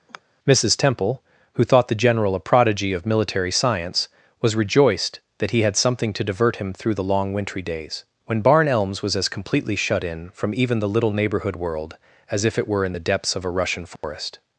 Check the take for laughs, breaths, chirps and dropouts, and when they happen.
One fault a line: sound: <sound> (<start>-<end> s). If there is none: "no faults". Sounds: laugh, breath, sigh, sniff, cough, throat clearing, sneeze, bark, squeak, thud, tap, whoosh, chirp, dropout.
sound: sigh (0.1-0.2 s)
sound: dropout (14.0-14.0 s)